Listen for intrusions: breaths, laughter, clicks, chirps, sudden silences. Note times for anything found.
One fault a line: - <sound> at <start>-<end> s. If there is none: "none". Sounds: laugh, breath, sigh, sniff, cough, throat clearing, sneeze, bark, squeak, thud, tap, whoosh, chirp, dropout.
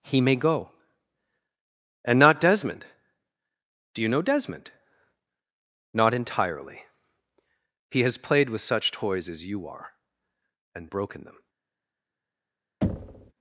- thud at 12.8-13.3 s